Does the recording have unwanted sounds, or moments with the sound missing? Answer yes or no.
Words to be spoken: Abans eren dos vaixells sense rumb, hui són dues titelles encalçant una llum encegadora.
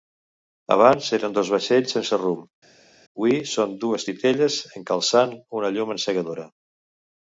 no